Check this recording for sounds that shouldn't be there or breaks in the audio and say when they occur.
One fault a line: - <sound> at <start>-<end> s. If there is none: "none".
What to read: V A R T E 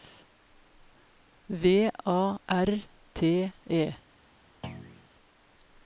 - thud at 4.6-5.1 s